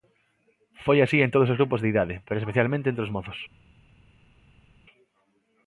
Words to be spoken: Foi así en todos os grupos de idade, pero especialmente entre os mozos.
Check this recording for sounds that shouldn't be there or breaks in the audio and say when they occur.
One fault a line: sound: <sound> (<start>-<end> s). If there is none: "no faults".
no faults